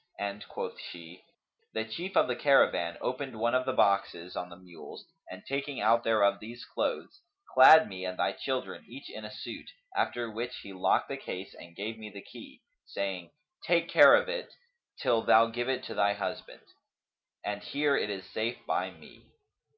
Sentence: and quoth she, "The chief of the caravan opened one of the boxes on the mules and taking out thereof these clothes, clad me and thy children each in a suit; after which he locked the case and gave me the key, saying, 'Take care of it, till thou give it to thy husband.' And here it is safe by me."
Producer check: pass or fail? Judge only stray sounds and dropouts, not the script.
pass